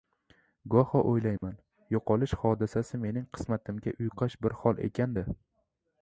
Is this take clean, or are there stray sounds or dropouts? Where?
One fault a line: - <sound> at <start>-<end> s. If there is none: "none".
- dropout at 1.4-1.4 s